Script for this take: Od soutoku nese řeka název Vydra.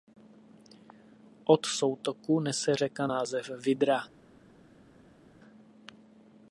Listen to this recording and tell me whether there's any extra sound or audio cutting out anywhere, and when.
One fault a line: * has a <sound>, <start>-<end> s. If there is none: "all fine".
all fine